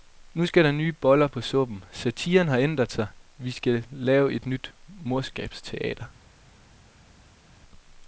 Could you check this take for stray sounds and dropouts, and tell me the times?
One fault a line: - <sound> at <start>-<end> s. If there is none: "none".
none